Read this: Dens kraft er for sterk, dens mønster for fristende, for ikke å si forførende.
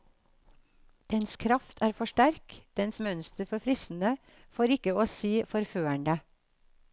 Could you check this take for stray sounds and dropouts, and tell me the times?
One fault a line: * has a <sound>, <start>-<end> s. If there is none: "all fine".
all fine